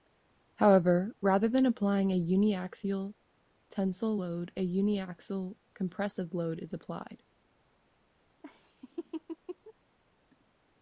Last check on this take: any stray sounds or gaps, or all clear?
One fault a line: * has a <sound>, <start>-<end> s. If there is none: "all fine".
* has a laugh, 8.4-9.7 s